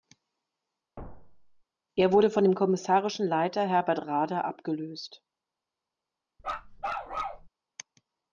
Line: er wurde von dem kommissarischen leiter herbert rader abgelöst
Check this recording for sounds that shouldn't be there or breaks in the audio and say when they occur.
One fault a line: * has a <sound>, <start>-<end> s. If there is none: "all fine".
* has a thud, 1.0-1.6 s
* has a bark, 6.4-7.5 s